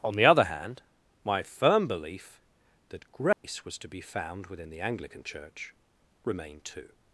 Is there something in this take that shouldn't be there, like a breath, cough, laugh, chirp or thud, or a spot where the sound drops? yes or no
yes